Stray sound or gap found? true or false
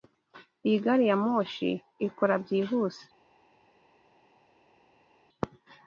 false